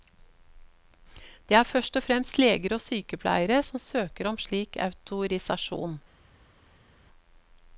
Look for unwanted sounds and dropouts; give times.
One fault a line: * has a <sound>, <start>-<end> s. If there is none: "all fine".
all fine